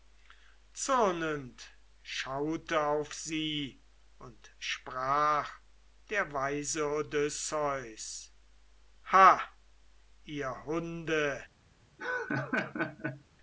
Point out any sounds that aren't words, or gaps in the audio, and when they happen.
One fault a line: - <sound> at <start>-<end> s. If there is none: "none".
- laugh at 12.0-13.2 s